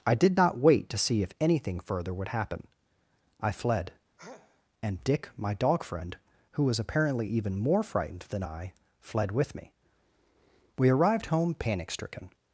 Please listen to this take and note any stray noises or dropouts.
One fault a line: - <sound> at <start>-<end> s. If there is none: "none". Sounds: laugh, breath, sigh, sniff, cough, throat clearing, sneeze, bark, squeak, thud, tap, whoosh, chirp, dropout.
- sneeze at 4.2-4.6 s